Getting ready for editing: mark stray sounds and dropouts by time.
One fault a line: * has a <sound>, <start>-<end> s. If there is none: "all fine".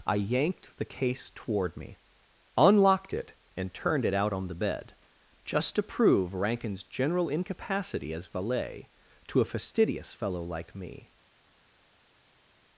all fine